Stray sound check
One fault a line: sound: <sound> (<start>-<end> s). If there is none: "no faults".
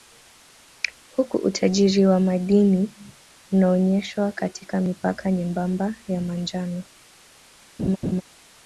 sound: laugh (7.8-8.2 s)